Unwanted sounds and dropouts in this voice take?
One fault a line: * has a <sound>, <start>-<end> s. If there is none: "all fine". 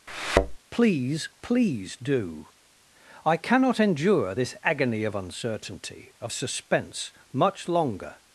* has a thud, 0.1-0.6 s